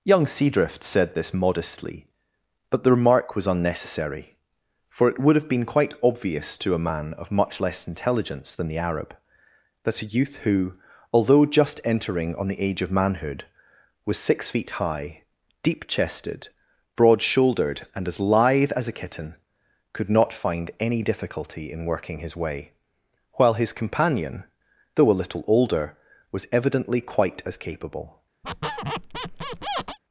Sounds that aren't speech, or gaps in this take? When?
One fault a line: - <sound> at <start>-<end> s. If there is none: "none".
- squeak at 28.4-30.0 s